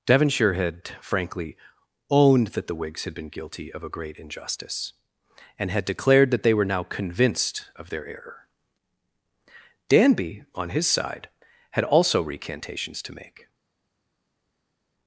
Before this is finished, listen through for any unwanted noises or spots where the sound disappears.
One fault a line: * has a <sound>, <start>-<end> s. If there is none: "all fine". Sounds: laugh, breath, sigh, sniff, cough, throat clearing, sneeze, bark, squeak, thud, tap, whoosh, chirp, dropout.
all fine